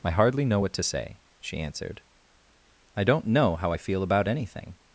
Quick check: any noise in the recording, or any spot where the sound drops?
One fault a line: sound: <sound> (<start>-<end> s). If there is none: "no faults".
no faults